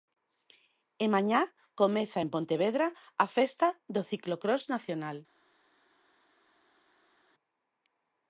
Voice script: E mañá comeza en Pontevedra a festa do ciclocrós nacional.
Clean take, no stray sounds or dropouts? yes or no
yes